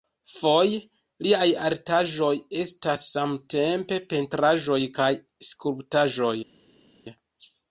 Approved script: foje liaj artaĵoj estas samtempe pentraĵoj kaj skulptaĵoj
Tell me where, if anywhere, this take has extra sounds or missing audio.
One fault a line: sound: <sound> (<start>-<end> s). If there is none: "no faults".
no faults